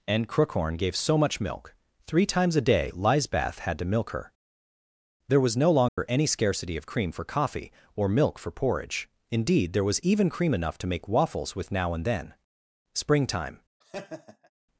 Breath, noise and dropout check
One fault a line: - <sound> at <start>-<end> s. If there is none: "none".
- dropout at 5.9-6.0 s
- laugh at 13.8-14.5 s